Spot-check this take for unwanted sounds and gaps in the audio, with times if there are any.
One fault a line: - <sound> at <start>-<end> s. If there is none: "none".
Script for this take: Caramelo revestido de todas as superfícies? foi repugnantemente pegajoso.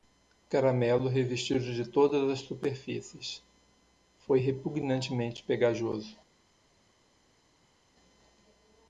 none